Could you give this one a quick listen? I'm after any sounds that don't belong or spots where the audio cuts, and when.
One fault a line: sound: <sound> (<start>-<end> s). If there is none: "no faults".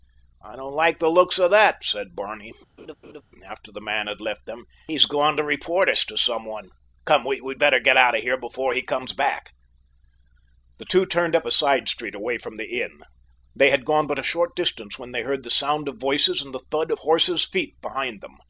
sound: laugh (2.8-3.2 s)